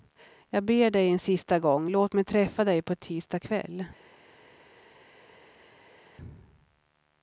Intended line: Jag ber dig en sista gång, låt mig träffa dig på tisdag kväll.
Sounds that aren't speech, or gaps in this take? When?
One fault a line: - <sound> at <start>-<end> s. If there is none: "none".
none